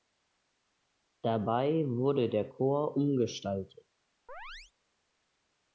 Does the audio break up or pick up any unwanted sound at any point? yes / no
yes